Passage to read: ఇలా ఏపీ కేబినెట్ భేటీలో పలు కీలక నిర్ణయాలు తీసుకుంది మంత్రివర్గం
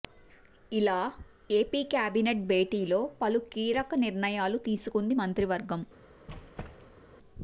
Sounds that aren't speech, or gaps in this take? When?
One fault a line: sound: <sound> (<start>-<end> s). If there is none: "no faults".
sound: squeak (6.3-7.0 s)